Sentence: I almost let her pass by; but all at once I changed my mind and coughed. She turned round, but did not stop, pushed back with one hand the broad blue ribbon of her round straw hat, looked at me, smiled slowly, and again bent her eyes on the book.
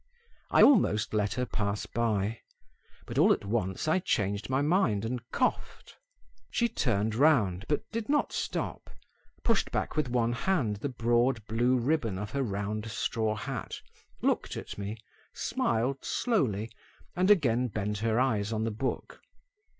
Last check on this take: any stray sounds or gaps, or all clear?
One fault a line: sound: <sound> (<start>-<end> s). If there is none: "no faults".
no faults